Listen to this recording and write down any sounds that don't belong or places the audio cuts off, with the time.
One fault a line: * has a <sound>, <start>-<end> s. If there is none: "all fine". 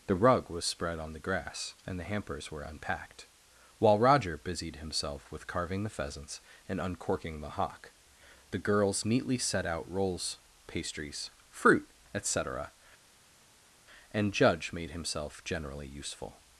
all fine